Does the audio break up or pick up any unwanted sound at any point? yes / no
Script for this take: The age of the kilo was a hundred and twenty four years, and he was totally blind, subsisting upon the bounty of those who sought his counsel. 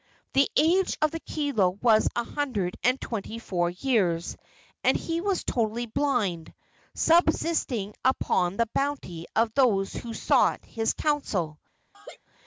yes